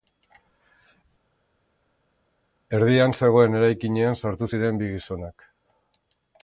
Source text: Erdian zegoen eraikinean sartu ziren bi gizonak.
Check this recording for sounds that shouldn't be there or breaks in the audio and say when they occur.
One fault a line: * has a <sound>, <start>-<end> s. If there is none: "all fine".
all fine